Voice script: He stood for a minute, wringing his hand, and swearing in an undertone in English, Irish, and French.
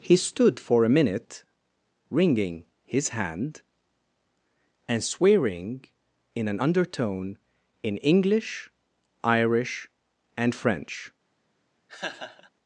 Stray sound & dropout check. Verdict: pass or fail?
fail